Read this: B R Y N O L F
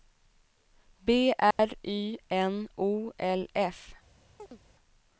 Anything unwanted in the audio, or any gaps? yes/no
yes